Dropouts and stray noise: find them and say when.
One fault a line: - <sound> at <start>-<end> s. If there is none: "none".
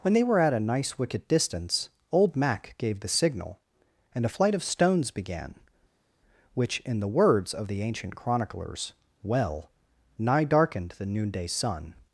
none